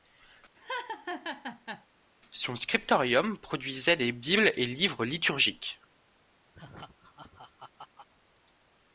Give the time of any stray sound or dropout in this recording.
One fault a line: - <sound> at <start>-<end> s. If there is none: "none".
- laugh at 0.5-1.9 s
- laugh at 6.5-8.1 s